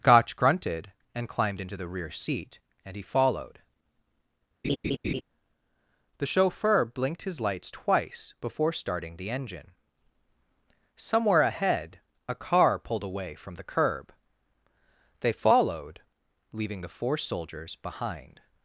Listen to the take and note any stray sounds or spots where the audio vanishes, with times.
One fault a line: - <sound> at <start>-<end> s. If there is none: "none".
- laugh at 4.6-5.2 s